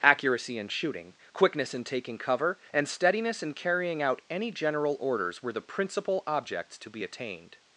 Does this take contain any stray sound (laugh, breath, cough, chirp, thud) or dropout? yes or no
no